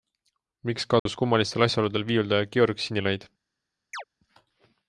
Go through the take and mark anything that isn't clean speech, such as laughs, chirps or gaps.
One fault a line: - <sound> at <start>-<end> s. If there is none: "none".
- dropout at 1.0-1.1 s
- chirp at 3.9-4.0 s